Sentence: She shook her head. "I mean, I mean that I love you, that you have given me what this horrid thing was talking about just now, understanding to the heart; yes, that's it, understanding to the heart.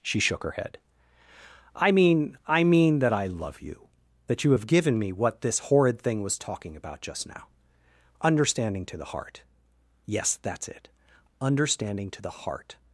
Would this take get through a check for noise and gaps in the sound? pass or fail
pass